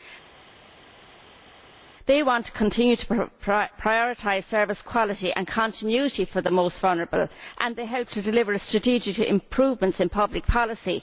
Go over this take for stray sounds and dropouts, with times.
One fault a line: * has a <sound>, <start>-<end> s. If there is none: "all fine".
all fine